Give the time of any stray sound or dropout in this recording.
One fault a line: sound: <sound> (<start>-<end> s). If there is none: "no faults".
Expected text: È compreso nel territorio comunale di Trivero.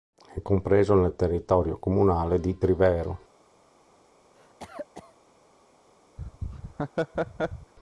sound: cough (4.3-5.2 s)
sound: laugh (6.2-7.7 s)